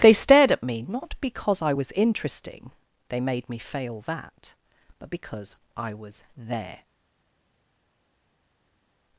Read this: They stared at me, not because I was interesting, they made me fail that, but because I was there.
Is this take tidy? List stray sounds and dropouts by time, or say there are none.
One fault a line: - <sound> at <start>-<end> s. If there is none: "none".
none